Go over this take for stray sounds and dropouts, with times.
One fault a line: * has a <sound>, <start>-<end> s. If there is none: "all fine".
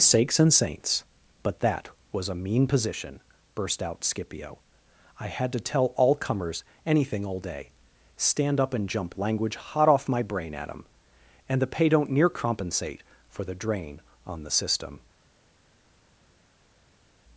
all fine